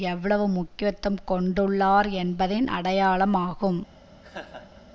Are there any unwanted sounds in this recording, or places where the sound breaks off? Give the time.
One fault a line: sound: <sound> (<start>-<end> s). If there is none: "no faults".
sound: laugh (4.2-4.8 s)